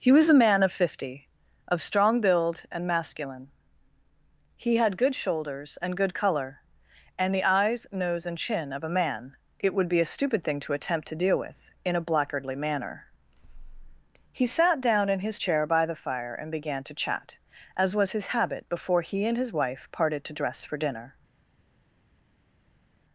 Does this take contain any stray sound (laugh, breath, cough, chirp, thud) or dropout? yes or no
no